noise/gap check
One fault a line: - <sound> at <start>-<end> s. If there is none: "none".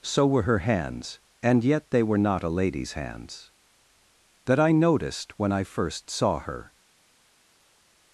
none